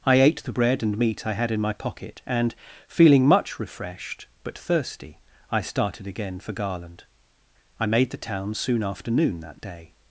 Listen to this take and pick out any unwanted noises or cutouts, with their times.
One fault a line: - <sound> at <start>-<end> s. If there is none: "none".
none